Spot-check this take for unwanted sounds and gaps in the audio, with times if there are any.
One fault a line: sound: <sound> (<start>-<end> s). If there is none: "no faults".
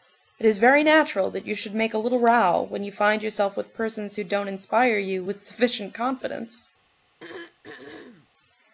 sound: throat clearing (7.2-8.3 s)